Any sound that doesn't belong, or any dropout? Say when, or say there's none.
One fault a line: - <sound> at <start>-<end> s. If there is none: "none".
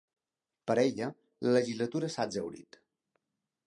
none